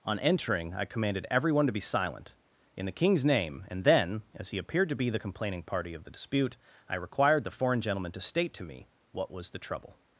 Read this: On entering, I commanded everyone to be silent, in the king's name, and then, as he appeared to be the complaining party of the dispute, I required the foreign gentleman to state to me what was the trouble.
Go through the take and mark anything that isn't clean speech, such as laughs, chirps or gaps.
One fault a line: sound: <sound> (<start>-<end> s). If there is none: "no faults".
no faults